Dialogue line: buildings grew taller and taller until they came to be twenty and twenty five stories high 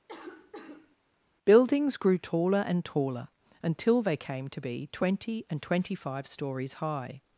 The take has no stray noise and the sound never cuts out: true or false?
false